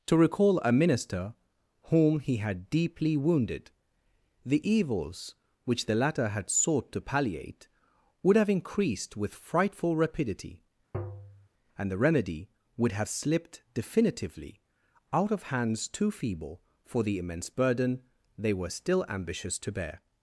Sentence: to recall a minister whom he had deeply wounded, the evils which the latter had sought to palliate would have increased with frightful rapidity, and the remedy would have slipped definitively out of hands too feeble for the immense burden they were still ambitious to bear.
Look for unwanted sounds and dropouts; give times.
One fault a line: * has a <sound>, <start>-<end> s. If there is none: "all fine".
* has a tap, 10.9-11.5 s